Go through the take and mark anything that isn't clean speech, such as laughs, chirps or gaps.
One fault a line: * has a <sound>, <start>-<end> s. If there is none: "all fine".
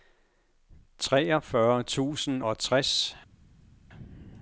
all fine